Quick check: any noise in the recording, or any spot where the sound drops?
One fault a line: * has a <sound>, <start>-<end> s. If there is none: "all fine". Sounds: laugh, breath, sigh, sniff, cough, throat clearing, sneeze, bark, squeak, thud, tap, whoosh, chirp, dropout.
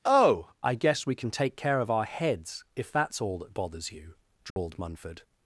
* has a dropout, 4.5-4.6 s